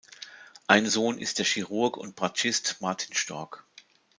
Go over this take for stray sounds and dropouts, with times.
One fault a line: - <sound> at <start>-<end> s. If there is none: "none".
none